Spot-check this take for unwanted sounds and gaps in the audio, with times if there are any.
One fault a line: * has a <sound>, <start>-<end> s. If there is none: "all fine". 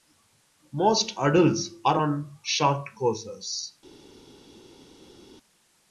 all fine